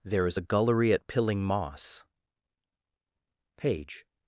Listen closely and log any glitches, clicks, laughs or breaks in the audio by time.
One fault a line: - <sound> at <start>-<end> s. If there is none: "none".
none